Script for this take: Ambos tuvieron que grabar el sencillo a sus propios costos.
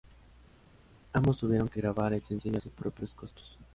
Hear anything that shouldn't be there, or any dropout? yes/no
no